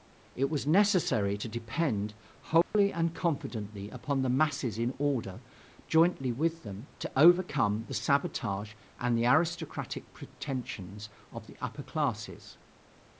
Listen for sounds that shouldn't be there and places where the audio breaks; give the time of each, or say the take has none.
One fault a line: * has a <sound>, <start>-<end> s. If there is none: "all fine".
* has a dropout, 2.6-2.7 s